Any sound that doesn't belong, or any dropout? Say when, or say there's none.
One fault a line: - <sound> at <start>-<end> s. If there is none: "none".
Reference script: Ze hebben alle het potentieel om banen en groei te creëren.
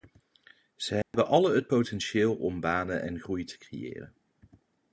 - dropout at 1.0-1.1 s